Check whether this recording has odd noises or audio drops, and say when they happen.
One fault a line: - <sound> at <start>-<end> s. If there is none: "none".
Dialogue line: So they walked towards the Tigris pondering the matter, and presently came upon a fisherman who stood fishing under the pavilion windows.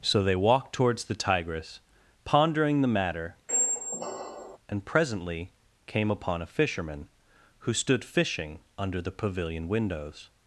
- squeak at 3.5-4.6 s